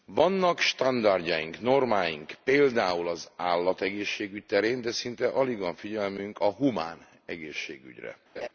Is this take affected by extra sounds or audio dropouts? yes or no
yes